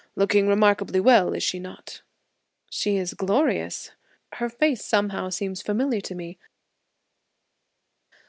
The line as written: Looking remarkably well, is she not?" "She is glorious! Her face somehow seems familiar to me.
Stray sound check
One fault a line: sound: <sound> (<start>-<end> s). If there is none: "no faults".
no faults